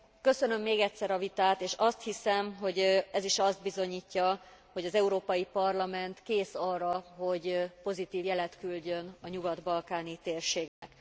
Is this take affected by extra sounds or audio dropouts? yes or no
yes